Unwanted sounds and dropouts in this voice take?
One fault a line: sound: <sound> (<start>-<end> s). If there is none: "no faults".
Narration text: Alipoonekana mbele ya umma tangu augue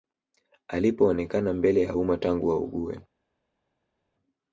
no faults